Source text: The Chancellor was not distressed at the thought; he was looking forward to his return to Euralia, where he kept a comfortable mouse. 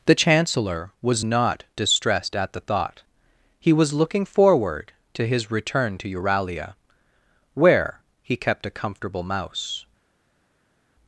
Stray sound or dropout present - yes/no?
no